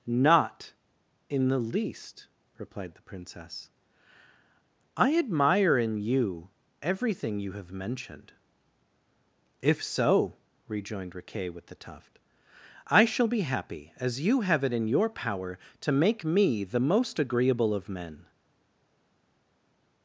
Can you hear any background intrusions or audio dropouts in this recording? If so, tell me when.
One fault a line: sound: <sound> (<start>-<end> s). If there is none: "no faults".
no faults